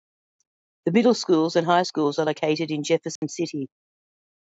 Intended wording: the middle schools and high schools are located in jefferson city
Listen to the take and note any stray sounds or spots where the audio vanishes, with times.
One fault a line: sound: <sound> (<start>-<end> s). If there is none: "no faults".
sound: dropout (3.2-3.2 s)